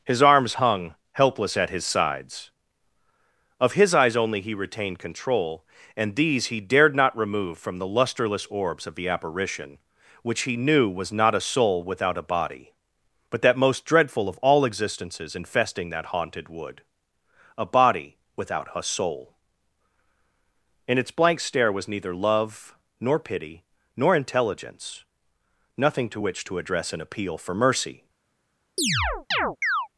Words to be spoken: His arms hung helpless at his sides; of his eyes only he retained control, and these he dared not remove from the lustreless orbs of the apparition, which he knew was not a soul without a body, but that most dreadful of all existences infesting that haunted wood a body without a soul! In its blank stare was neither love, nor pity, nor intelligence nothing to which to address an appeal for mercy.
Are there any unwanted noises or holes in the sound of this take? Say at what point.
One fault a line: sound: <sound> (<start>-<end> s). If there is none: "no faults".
sound: chirp (28.8-29.9 s)